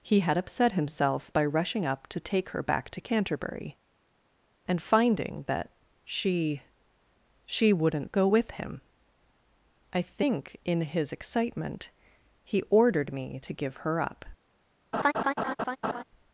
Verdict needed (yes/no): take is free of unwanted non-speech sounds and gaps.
no